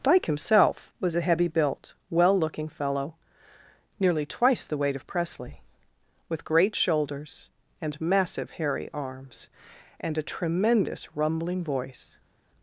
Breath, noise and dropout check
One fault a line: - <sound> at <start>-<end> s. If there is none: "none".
none